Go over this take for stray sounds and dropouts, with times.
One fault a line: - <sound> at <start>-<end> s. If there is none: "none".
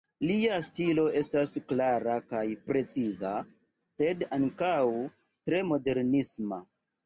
none